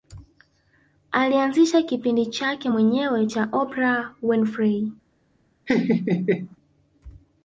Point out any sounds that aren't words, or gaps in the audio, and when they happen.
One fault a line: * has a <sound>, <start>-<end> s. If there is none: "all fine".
* has a laugh, 5.7-6.6 s